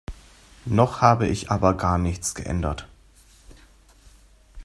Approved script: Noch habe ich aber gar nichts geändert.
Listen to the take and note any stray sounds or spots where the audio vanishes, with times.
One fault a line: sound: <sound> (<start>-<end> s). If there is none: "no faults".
no faults